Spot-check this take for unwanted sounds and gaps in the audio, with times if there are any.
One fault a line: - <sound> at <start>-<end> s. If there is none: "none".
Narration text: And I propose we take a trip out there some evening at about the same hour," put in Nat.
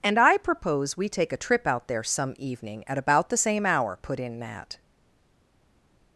none